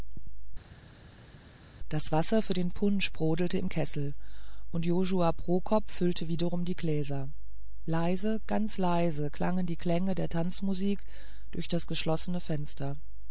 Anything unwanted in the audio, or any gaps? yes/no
no